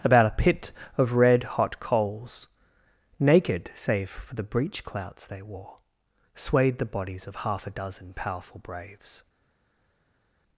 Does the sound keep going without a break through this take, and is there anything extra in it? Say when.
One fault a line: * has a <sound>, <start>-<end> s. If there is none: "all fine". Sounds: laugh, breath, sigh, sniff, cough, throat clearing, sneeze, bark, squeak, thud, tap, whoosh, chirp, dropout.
all fine